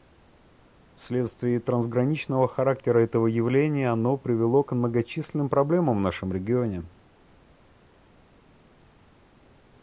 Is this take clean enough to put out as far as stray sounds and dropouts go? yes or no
yes